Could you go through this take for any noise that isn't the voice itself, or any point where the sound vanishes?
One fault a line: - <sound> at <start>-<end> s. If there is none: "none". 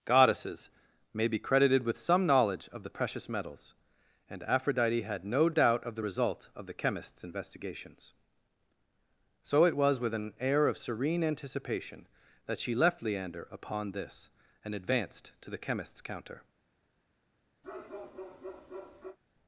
- bark at 17.6-19.2 s